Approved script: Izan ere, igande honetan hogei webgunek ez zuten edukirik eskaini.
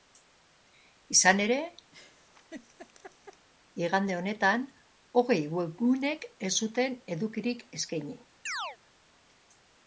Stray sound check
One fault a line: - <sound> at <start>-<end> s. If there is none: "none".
- laugh at 1.9-3.5 s
- chirp at 8.5-8.8 s